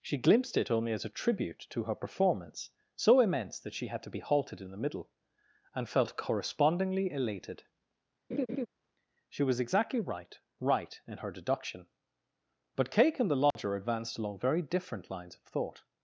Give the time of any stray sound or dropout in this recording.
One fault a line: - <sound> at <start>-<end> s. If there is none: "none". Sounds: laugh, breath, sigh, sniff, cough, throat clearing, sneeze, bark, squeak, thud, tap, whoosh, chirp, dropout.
- laugh at 8.3-8.7 s
- dropout at 13.5-13.6 s